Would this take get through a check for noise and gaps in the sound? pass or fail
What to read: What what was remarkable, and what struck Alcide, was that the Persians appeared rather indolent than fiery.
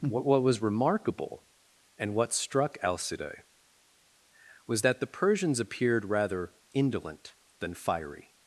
pass